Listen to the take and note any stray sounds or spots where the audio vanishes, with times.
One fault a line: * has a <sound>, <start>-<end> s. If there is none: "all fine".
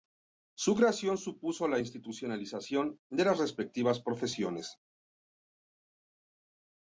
all fine